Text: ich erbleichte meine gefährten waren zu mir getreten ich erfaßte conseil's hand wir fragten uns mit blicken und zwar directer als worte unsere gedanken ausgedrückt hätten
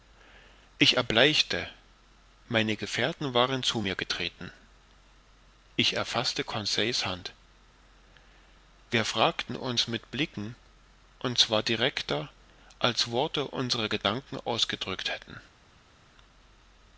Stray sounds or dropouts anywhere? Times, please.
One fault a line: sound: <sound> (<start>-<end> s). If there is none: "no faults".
no faults